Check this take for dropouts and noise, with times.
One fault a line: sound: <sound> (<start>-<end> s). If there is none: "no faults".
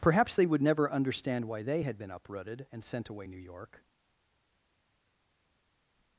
no faults